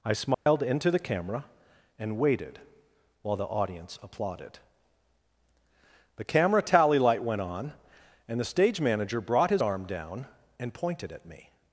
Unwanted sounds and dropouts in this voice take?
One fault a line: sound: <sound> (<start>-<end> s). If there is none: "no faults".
sound: dropout (0.3-0.5 s)